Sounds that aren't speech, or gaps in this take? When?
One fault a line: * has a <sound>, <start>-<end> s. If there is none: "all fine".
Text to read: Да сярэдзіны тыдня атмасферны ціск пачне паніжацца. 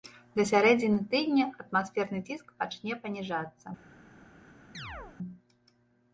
* has a chirp, 4.7-5.2 s